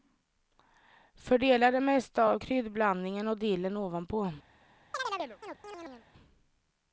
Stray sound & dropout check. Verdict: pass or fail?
fail